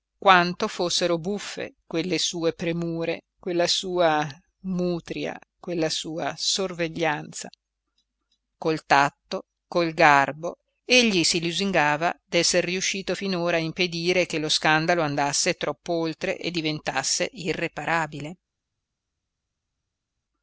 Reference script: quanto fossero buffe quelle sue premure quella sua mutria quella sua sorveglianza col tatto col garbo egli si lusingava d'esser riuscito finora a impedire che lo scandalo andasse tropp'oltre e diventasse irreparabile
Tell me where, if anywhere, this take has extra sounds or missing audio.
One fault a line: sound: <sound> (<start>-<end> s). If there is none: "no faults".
no faults